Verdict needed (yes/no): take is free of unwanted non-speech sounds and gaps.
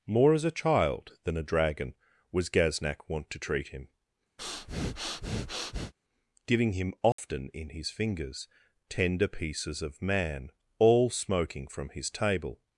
no